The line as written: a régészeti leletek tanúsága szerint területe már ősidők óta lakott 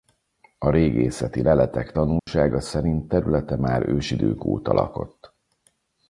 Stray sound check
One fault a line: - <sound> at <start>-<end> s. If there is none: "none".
- dropout at 2.2-2.3 s